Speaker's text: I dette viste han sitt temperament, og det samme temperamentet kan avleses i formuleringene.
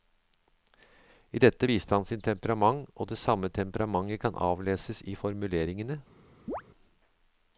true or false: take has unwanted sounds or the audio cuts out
true